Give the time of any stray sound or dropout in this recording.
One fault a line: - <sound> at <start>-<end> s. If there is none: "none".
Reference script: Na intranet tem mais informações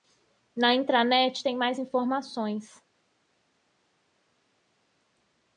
none